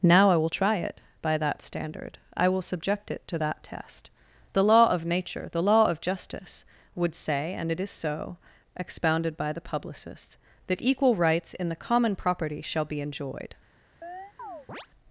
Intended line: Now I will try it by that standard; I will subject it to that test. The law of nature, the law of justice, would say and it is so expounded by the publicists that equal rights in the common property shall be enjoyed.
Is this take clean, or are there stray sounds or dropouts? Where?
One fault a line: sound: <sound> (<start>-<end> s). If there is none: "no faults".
sound: chirp (14.0-14.9 s)